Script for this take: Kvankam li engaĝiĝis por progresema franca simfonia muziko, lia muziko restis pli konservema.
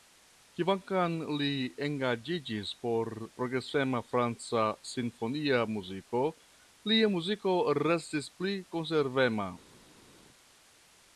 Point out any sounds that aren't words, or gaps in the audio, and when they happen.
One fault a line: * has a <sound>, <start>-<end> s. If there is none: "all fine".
all fine